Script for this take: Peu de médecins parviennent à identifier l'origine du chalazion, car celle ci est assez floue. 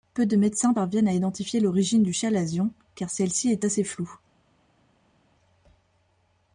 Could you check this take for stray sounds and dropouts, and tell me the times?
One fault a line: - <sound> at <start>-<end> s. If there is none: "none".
none